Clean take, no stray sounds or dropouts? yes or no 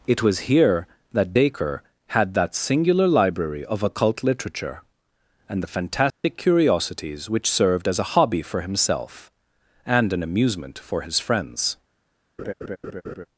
no